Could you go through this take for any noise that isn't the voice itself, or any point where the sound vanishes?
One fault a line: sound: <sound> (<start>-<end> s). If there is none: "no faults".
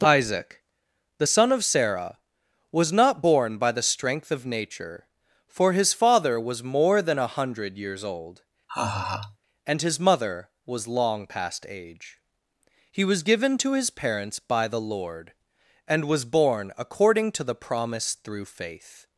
sound: laugh (8.7-9.4 s)